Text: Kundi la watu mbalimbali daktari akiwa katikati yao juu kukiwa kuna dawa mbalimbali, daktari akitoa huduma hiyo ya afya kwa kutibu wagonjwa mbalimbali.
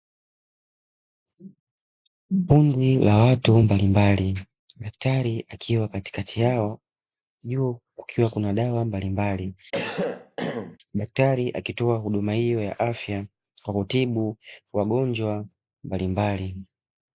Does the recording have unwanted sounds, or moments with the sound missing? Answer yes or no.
yes